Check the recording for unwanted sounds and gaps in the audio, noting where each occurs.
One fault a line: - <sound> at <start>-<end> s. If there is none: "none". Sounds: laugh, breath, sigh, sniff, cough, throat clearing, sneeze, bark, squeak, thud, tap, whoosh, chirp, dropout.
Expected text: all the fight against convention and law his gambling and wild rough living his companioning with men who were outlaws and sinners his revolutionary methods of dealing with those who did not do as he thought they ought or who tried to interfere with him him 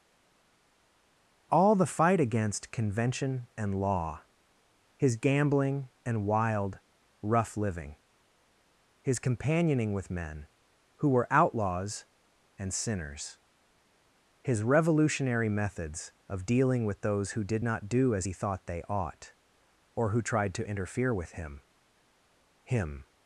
none